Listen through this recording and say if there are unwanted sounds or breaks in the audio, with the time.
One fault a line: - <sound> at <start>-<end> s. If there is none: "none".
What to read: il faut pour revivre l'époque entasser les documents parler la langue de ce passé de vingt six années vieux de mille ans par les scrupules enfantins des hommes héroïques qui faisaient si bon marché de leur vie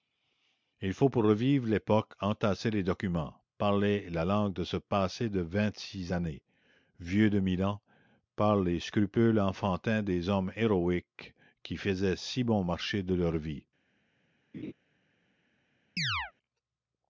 - laugh at 14.5-14.7 s
- chirp at 16.0-16.3 s